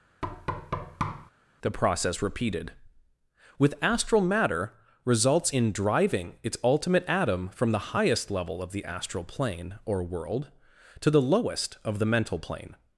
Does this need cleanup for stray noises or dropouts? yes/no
yes